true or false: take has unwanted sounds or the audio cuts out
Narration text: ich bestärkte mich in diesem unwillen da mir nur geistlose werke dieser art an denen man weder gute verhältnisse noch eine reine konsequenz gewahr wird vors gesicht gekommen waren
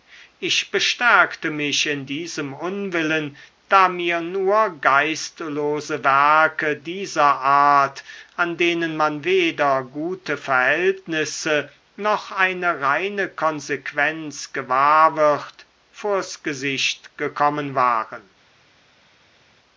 false